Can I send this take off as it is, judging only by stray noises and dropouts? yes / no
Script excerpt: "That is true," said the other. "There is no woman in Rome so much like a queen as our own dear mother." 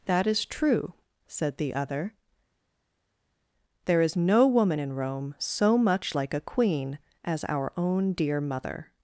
yes